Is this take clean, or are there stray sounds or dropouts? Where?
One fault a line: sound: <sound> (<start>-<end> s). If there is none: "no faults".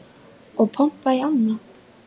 no faults